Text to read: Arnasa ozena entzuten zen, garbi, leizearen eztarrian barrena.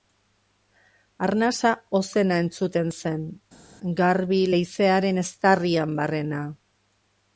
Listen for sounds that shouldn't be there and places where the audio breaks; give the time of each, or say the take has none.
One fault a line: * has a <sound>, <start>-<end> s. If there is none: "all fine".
all fine